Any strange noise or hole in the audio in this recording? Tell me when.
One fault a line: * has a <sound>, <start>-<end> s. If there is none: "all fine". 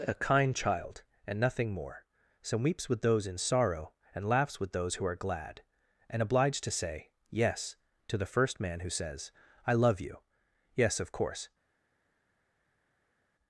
all fine